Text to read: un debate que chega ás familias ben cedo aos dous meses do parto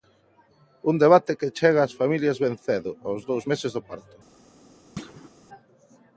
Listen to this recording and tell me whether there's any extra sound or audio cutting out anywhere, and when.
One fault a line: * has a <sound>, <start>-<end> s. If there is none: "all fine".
* has a thud, 5.0-5.3 s